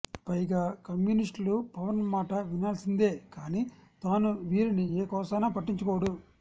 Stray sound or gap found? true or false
false